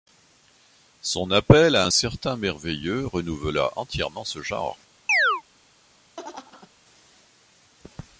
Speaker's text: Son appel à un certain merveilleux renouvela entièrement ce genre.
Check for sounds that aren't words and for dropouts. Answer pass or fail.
fail